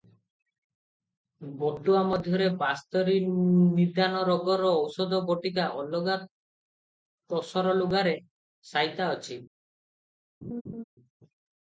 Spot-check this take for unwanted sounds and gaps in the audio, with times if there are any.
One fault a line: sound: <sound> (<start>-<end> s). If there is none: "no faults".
sound: laugh (10.4-10.8 s)